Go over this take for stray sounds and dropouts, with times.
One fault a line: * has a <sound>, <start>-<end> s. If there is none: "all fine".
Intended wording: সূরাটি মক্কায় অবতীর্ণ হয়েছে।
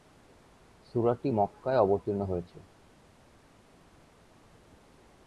all fine